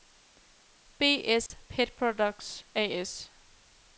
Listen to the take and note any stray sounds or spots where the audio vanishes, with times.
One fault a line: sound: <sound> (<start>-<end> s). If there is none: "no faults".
sound: dropout (1.5-1.5 s)